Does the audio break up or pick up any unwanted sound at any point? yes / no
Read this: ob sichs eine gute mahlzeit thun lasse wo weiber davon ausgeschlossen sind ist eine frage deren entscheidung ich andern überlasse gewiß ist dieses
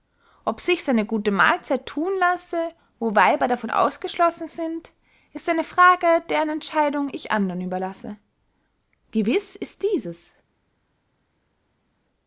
no